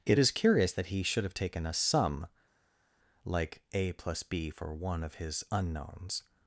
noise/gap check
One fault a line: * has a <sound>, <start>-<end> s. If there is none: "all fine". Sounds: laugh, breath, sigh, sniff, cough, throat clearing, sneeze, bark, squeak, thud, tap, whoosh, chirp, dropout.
all fine